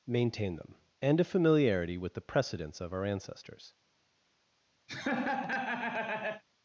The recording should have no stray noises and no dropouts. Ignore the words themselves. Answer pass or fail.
fail